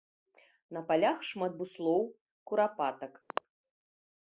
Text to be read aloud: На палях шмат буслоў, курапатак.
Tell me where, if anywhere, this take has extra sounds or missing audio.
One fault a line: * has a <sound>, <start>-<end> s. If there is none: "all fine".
* has a throat clearing, 3.3-3.4 s